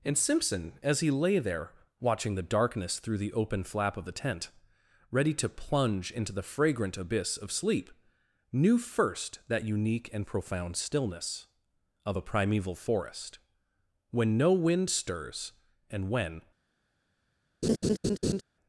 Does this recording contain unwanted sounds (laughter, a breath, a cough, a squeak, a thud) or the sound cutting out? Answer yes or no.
yes